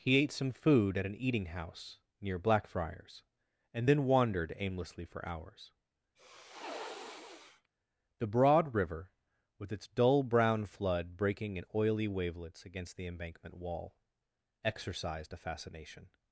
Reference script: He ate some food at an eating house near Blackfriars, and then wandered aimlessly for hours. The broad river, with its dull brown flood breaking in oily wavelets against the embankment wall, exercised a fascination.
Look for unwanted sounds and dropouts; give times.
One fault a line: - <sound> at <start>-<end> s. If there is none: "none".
- sniff at 6.2-7.7 s